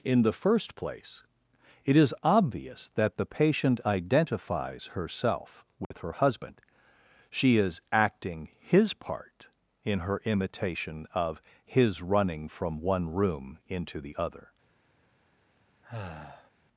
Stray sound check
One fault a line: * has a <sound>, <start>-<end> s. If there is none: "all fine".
* has a dropout, 5.8-5.9 s
* has a sigh, 15.8-16.5 s